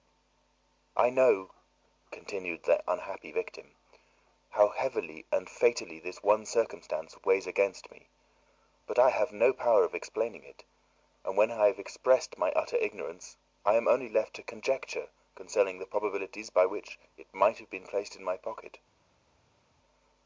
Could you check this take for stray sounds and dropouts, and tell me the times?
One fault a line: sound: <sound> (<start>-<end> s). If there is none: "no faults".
no faults